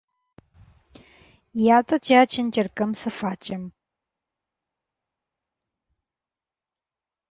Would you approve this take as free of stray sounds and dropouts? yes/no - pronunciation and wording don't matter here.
yes